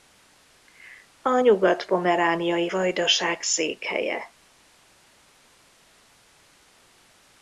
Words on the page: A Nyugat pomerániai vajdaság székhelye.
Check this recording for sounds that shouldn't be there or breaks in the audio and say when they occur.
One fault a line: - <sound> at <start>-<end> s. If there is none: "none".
none